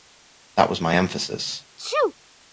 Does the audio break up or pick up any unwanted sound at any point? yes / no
yes